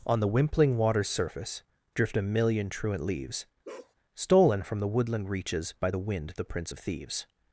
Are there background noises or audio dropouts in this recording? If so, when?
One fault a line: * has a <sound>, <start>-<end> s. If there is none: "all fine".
* has a bark, 3.6-3.9 s